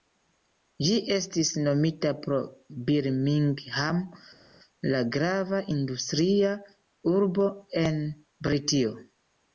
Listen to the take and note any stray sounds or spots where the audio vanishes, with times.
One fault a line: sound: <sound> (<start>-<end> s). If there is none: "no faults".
no faults